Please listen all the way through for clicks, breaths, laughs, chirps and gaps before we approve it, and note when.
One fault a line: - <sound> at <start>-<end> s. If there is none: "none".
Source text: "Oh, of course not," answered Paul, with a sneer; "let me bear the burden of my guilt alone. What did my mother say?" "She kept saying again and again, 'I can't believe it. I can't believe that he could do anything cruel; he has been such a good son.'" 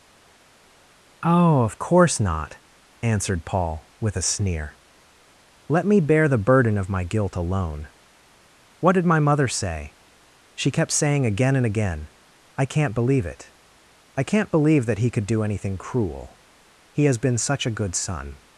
none